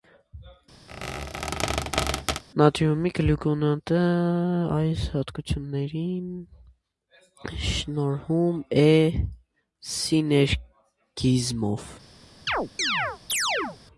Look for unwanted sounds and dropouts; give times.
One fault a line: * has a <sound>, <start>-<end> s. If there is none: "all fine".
* has a squeak, 0.9-2.4 s
* has a chirp, 12.5-13.8 s